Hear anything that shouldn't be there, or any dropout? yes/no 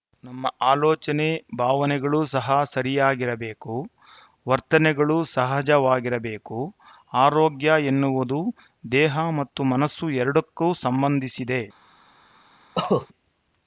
yes